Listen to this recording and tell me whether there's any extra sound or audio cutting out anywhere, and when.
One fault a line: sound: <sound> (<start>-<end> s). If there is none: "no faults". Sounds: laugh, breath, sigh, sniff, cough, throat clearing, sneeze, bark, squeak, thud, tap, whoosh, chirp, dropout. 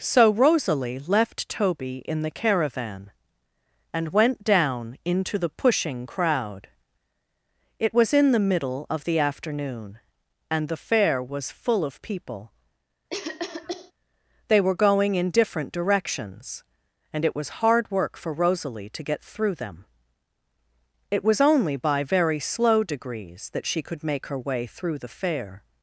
sound: cough (13.1-13.9 s)